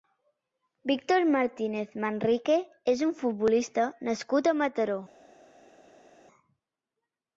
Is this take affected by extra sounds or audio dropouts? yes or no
no